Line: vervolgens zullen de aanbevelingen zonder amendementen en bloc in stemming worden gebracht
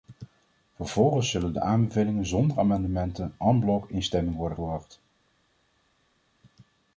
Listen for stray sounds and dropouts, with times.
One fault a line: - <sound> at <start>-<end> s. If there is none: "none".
none